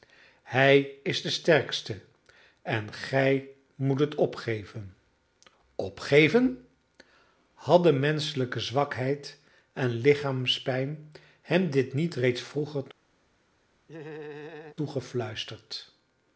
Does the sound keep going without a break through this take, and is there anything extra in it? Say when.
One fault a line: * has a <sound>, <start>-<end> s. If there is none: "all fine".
* has a laugh, 13.9-14.8 s